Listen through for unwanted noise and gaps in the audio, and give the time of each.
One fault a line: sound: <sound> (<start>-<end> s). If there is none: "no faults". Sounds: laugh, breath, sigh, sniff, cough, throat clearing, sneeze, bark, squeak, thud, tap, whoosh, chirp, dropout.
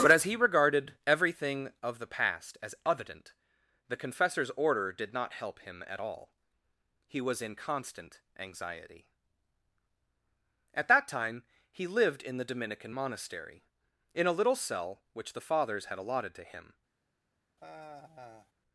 sound: sigh (17.6-18.5 s)